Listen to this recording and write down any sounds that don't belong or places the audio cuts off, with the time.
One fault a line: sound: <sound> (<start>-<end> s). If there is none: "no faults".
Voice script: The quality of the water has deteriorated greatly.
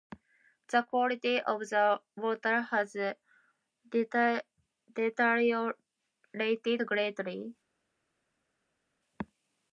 no faults